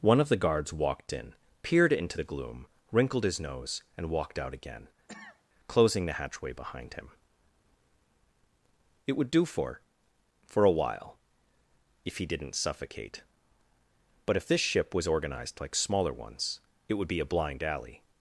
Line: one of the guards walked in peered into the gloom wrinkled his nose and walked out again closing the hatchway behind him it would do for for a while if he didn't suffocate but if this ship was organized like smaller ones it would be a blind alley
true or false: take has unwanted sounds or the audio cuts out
true